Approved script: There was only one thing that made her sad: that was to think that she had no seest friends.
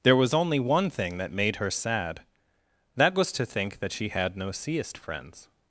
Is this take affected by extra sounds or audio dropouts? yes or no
no